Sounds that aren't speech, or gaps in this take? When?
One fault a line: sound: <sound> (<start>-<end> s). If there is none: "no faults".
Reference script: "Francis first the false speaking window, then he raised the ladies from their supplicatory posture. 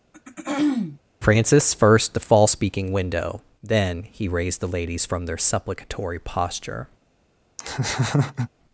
sound: throat clearing (0.1-1.0 s)
sound: laugh (7.6-8.5 s)